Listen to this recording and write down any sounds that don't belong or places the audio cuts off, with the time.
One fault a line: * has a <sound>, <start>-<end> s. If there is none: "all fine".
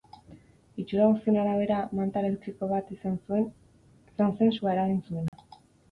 * has a dropout, 5.3-5.3 s